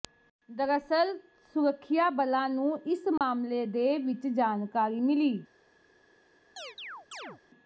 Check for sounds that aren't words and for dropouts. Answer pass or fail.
fail